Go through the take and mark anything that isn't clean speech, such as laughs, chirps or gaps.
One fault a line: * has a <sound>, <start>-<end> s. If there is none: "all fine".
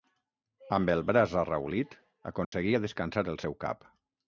* has a dropout, 2.4-2.5 s